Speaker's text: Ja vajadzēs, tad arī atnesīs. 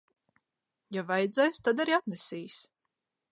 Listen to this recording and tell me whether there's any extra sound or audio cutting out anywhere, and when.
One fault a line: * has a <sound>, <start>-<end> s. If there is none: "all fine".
all fine